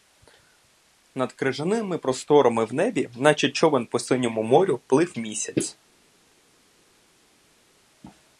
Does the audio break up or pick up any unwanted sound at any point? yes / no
no